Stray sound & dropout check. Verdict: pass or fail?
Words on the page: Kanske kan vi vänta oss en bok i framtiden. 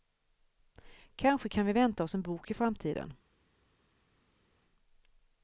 pass